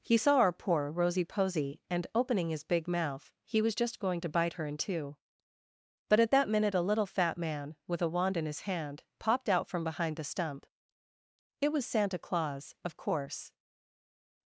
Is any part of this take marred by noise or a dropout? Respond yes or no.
no